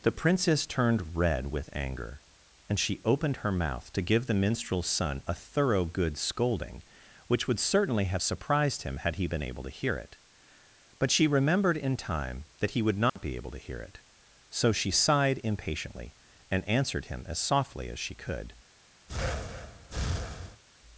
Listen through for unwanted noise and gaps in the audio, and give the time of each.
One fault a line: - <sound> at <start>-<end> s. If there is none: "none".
- dropout at 13.1-13.2 s
- breath at 19.1-20.6 s